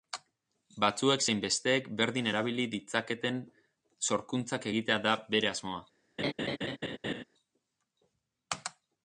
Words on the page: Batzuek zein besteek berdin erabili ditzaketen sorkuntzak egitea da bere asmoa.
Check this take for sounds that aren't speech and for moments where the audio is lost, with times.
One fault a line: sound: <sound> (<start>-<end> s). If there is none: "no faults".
sound: laugh (6.2-7.2 s)